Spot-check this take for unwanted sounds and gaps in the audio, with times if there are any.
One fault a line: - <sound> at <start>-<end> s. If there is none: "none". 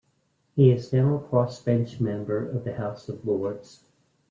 none